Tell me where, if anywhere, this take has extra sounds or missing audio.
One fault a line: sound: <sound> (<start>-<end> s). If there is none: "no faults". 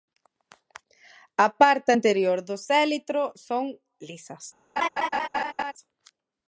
sound: laugh (4.8-5.7 s)